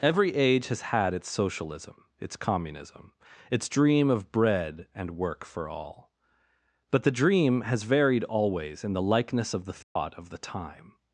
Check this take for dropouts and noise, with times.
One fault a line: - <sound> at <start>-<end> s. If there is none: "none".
- dropout at 9.8-10.0 s